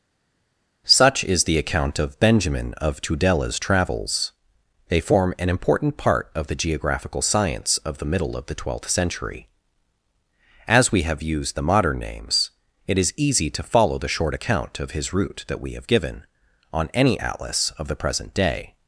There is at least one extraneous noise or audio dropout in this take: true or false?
false